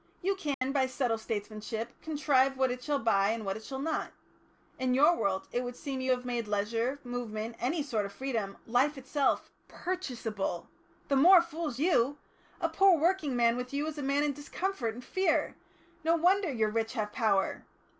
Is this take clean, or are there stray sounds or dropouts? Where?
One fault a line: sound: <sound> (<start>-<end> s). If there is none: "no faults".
sound: dropout (0.5-0.6 s)